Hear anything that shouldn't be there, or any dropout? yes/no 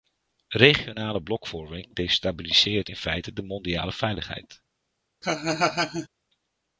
yes